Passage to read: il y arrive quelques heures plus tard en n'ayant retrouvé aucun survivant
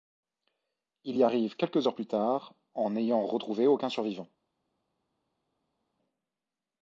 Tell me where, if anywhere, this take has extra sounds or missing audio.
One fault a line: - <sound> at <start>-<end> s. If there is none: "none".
none